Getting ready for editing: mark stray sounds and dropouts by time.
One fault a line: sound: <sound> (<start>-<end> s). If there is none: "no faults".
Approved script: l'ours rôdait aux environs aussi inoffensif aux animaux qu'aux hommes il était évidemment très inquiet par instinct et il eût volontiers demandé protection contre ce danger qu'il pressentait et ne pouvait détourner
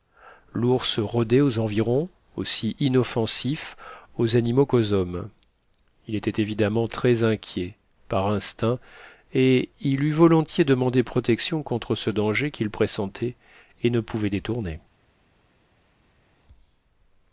no faults